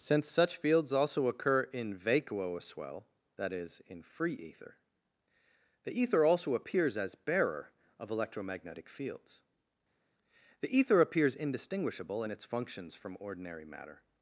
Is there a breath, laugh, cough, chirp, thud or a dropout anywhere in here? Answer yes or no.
no